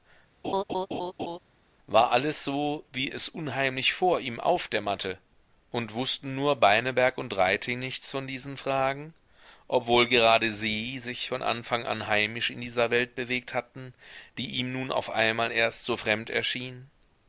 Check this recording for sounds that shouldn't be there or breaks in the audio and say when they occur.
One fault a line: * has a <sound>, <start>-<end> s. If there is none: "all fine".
* has a laugh, 0.4-1.4 s